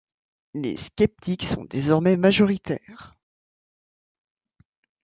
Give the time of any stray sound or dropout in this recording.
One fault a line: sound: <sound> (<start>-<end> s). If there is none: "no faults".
no faults